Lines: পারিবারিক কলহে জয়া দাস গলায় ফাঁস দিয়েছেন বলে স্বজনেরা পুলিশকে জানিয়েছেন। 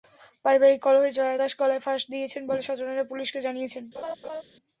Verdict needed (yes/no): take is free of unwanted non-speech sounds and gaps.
no